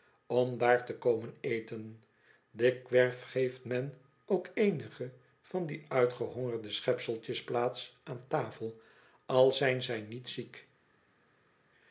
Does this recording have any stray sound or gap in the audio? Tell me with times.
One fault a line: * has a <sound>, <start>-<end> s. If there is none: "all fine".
all fine